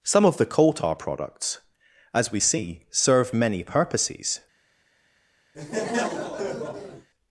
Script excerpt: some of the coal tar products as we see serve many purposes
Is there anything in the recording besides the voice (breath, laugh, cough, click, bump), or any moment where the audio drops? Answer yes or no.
yes